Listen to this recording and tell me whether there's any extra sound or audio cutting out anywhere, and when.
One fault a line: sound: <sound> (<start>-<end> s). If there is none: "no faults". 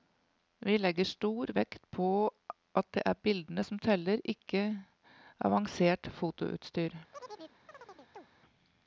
sound: chirp (7.1-8.3 s)